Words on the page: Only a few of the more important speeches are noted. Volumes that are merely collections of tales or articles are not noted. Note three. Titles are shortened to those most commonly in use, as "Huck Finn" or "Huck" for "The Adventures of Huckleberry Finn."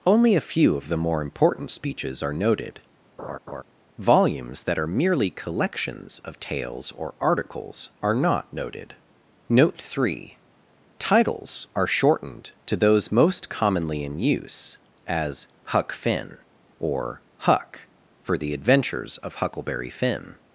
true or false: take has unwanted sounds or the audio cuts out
true